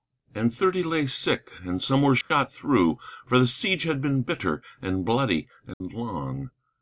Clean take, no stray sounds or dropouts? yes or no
no